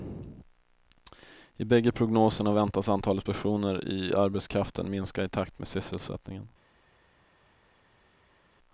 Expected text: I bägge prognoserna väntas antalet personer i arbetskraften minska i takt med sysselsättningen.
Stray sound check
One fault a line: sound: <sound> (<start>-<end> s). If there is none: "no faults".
no faults